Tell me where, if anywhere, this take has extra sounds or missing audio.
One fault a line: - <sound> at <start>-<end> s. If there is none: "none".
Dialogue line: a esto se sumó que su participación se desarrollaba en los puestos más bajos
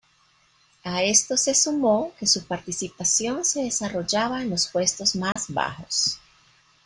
- dropout at 5.3-5.4 s